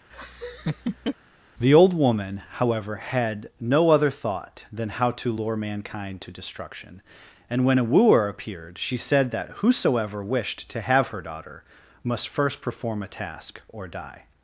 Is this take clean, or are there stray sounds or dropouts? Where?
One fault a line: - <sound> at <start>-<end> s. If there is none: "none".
- laugh at 0.1-1.2 s